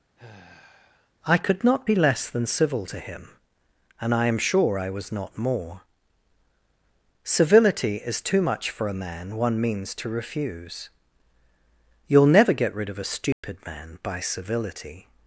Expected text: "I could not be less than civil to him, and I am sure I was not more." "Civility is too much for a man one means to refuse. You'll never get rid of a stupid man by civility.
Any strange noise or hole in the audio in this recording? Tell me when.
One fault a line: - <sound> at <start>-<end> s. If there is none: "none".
- sigh at 0.2-1.1 s
- dropout at 13.3-13.4 s